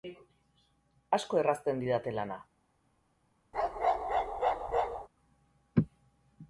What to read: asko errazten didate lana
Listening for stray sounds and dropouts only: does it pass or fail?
fail